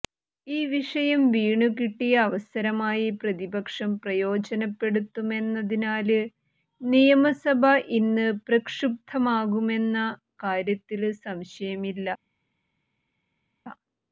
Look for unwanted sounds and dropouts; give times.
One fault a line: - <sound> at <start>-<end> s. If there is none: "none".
none